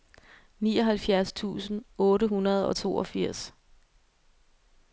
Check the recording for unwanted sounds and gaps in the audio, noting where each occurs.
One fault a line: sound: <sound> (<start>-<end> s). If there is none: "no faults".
no faults